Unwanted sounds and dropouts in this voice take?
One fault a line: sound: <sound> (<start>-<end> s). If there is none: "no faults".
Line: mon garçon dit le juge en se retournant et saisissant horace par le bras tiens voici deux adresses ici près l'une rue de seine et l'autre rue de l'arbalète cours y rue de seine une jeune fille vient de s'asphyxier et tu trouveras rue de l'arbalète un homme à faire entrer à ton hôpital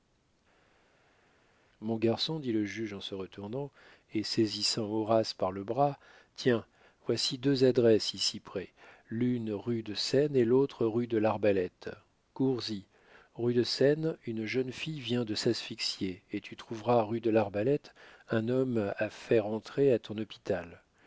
no faults